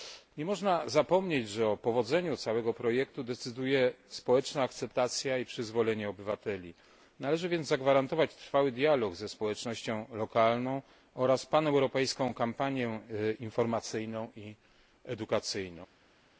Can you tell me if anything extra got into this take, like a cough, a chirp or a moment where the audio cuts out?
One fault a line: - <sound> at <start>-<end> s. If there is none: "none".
none